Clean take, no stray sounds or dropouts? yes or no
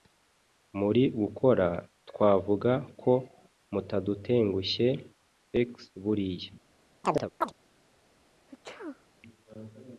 no